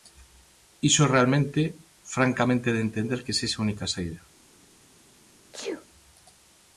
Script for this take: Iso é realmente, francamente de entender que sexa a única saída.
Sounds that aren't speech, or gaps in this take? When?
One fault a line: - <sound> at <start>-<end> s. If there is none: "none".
- sneeze at 5.5-5.9 s